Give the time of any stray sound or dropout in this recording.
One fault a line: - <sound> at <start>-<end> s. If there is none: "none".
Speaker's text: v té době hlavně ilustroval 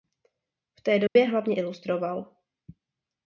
- dropout at 1.1-1.2 s